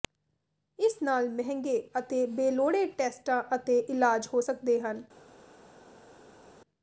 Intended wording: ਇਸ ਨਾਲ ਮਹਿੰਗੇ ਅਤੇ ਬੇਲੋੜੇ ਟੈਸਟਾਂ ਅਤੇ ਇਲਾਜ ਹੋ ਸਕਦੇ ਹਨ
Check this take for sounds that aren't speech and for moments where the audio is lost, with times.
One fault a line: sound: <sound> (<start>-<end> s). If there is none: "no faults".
no faults